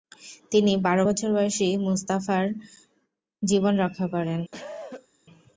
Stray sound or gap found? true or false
true